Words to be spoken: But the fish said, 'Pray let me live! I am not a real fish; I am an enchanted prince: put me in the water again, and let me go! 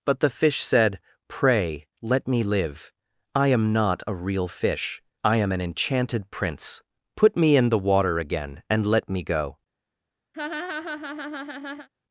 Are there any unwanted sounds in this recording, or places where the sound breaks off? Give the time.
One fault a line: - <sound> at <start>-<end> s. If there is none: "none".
- laugh at 10.3-11.9 s